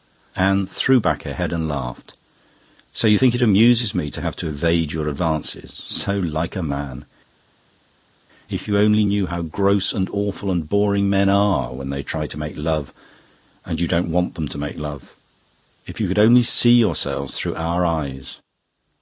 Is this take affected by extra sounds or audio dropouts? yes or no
no